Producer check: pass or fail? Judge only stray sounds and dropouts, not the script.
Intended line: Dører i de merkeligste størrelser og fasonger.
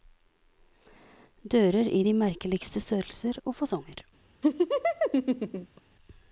fail